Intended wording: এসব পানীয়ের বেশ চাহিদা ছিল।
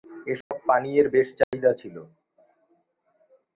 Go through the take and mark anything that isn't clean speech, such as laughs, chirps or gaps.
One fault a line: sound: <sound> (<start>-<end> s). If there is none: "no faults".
sound: dropout (0.4-0.5 s)
sound: dropout (1.4-1.5 s)